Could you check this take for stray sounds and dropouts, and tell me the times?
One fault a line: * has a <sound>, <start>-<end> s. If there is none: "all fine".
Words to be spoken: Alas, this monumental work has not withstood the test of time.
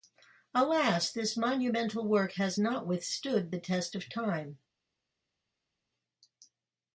all fine